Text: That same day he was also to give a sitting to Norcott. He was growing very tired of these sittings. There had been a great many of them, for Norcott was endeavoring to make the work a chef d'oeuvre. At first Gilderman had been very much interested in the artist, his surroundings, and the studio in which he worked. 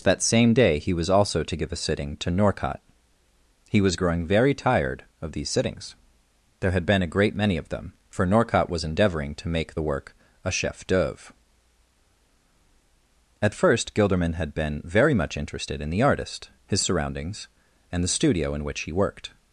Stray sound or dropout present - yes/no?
no